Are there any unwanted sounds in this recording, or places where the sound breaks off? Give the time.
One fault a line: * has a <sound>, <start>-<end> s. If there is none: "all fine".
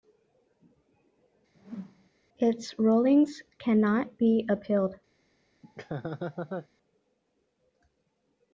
* has a whoosh, 1.5-2.1 s
* has a laugh, 5.6-6.7 s